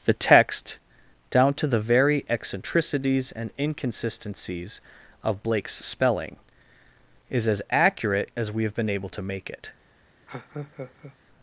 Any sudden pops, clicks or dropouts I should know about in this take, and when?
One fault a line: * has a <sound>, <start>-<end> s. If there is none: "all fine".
* has a laugh, 10.3-11.2 s